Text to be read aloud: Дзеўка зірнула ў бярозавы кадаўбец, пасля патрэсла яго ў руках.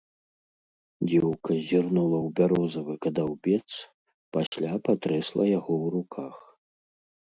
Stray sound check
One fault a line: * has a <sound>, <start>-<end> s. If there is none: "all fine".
* has a dropout, 4.5-4.5 s